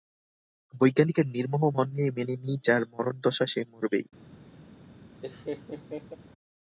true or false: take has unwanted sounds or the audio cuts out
true